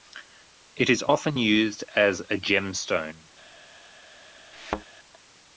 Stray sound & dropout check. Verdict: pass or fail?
fail